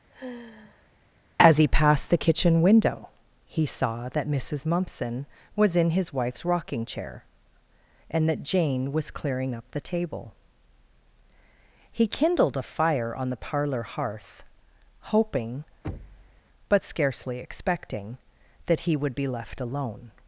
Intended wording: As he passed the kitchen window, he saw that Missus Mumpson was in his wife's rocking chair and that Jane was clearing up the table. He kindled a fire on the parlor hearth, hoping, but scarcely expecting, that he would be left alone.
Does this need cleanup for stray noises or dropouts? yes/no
yes